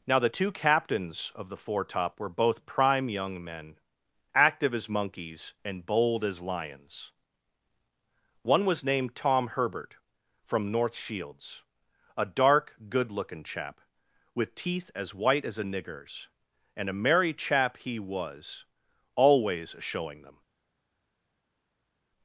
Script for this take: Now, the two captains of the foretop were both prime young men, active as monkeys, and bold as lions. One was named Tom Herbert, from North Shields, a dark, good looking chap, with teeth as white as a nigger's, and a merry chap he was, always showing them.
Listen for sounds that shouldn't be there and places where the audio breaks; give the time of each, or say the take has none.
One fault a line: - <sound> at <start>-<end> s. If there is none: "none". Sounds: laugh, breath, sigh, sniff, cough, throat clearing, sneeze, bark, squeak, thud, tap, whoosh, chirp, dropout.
none